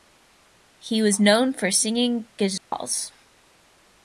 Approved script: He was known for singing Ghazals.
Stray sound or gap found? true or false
true